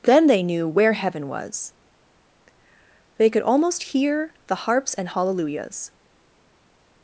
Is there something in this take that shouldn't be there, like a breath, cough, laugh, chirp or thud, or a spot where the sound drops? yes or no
no